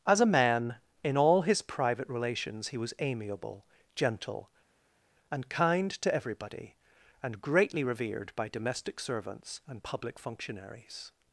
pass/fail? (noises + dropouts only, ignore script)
pass